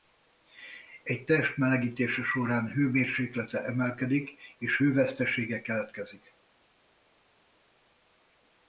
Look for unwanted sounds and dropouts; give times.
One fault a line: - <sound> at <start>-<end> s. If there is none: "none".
none